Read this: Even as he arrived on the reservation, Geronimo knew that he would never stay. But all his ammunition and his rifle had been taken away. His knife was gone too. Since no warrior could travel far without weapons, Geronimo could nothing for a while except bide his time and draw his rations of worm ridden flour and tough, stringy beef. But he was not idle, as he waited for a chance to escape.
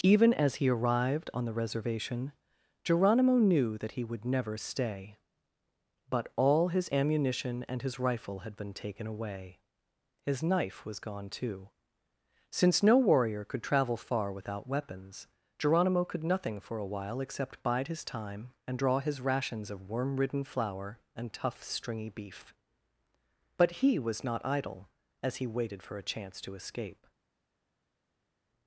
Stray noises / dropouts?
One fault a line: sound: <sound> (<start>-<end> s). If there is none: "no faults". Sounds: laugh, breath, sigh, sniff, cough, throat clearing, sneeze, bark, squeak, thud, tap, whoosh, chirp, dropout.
no faults